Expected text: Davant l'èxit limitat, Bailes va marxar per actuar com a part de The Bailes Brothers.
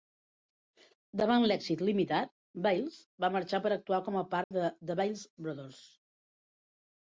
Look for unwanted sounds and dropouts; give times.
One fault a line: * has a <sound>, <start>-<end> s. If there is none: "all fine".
* has a dropout, 4.4-4.5 s